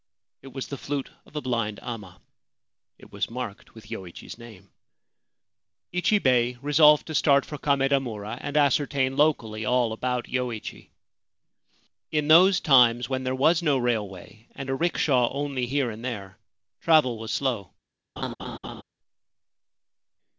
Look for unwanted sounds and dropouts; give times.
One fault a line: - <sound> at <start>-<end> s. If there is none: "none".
- laugh at 18.2-18.8 s